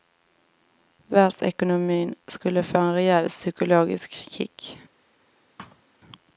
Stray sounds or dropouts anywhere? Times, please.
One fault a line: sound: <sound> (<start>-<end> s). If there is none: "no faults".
sound: thud (5.6-5.8 s)